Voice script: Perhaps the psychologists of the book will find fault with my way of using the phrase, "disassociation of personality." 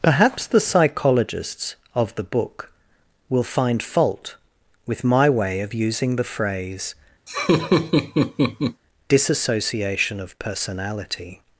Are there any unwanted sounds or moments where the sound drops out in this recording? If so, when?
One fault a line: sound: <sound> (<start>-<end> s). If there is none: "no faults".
sound: laugh (7.3-8.8 s)